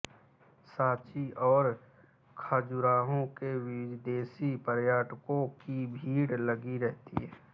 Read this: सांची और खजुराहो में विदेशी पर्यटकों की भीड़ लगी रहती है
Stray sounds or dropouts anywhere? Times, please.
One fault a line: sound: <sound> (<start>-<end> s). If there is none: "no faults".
no faults